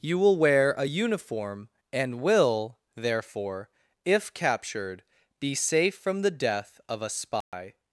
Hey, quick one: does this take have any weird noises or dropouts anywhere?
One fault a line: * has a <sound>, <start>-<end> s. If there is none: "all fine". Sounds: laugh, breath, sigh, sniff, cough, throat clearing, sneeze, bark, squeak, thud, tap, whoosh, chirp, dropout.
* has a dropout, 7.4-7.5 s